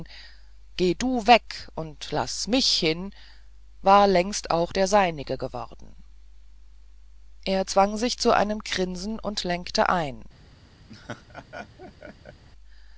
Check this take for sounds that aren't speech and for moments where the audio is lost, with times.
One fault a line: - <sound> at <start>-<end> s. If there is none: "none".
- laugh at 10.9-12.4 s